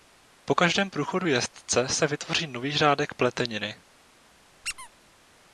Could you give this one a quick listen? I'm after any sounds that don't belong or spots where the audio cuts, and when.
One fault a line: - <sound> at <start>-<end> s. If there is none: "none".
- squeak at 4.6-4.9 s